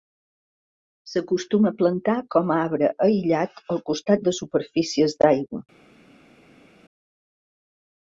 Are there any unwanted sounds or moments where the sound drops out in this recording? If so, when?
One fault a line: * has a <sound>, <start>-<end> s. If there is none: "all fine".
all fine